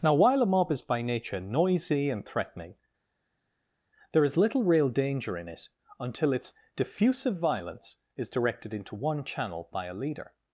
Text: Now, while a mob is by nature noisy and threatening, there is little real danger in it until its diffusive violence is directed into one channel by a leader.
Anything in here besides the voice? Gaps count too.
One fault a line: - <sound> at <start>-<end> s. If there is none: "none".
none